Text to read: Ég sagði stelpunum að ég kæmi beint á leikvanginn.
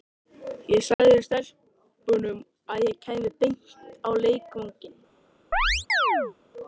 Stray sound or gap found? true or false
true